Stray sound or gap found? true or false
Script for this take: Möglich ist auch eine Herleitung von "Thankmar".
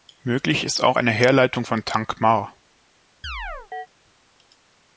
true